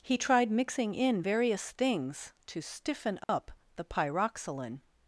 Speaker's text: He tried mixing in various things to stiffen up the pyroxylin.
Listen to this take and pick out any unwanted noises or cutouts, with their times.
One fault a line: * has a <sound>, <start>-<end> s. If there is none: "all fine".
* has a dropout, 3.2-3.3 s